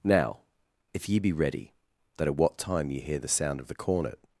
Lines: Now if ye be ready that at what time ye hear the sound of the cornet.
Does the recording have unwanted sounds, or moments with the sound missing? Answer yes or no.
no